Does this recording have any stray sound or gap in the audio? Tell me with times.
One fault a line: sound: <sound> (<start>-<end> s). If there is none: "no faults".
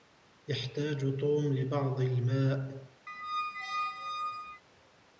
sound: squeak (3.1-4.6 s)